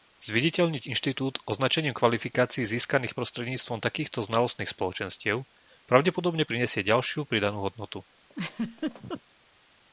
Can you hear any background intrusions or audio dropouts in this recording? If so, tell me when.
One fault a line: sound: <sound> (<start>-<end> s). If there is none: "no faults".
sound: laugh (8.3-9.2 s)